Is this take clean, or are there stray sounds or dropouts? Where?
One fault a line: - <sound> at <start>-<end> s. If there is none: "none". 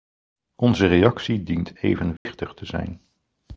- dropout at 2.2-2.3 s